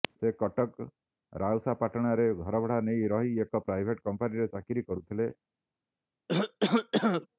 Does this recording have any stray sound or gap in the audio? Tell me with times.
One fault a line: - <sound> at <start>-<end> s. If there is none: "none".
- cough at 6.3-7.3 s